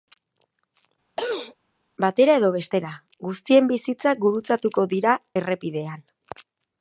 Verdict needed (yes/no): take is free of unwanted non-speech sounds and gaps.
no